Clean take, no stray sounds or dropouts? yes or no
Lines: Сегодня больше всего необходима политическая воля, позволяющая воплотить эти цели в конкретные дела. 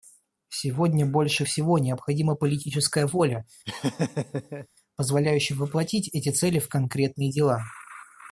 no